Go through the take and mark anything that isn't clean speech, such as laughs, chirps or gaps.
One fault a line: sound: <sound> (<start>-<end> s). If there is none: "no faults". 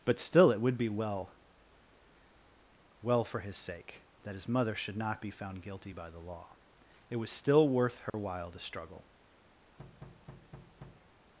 sound: dropout (8.1-8.1 s)
sound: thud (9.8-11.1 s)